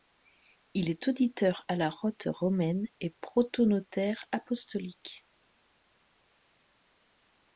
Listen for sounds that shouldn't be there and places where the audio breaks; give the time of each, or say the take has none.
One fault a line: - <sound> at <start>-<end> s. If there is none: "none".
none